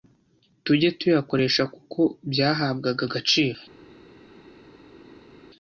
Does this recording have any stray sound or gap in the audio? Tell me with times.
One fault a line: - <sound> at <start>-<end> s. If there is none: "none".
none